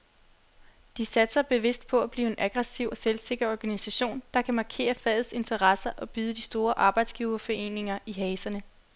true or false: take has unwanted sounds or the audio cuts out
false